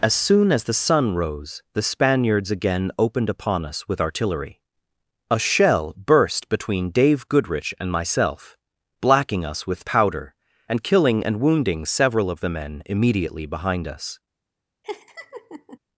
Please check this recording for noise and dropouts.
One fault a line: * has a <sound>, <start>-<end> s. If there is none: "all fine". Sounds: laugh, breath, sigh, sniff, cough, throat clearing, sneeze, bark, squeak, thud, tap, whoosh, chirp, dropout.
* has a laugh, 14.8-15.8 s